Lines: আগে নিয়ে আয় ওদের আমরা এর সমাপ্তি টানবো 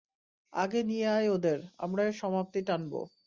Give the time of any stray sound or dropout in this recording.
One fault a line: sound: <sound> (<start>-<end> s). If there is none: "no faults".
no faults